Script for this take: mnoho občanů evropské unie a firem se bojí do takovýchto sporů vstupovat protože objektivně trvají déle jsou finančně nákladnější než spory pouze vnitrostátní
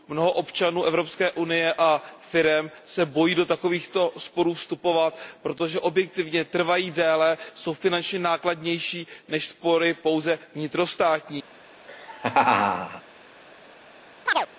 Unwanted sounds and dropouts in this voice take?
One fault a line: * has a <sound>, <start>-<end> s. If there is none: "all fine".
* has a laugh, 11.9-13.0 s
* has a chirp, 14.3-14.5 s